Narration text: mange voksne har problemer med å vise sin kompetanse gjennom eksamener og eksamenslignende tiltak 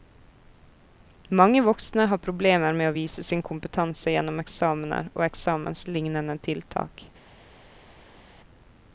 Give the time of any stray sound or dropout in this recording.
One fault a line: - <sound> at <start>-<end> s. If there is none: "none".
none